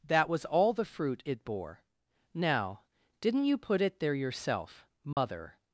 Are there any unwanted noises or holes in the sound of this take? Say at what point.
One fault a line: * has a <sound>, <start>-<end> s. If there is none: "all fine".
* has a dropout, 5.1-5.2 s